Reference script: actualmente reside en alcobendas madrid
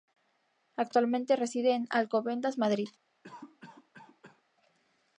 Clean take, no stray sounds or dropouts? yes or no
no